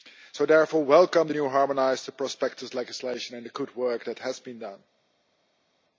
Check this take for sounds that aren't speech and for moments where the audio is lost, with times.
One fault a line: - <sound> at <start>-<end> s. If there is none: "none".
none